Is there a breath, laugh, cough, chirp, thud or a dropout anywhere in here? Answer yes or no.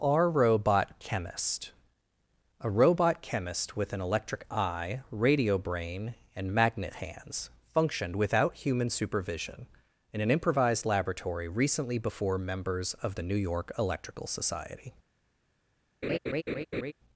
yes